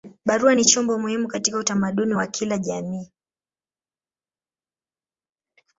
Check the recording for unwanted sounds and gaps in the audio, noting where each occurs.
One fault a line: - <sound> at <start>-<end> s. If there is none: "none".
none